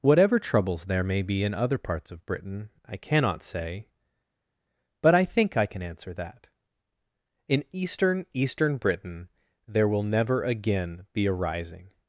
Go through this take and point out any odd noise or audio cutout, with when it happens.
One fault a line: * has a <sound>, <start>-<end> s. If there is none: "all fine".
all fine